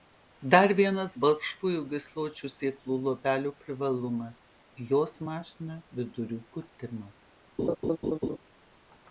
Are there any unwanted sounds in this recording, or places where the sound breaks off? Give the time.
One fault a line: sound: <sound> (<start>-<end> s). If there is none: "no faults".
sound: laugh (7.6-8.4 s)